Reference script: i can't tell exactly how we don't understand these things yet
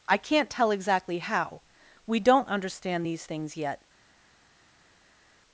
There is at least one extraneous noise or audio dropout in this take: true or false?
false